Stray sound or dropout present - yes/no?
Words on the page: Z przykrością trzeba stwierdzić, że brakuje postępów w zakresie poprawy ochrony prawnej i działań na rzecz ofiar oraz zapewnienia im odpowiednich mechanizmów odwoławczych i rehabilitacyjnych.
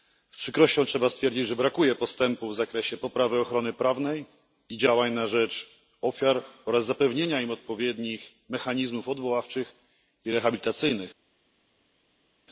no